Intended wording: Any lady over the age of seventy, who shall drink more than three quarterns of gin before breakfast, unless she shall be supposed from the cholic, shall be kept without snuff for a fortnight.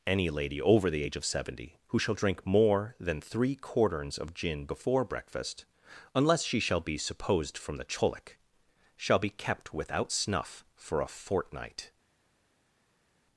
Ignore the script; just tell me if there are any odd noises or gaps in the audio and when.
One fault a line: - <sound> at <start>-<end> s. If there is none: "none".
none